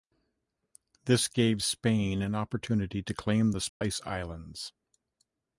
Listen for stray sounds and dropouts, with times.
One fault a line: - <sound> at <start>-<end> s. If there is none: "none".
- dropout at 3.7-3.8 s